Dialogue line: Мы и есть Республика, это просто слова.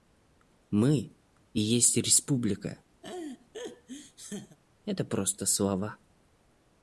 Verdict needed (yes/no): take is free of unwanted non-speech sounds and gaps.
no